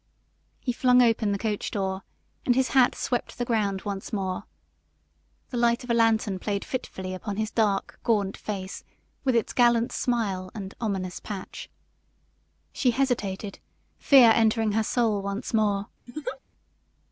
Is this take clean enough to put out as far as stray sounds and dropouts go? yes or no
no